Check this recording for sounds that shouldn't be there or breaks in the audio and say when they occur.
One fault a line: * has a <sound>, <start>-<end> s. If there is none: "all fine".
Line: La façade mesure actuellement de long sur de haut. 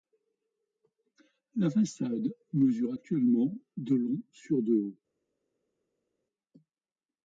all fine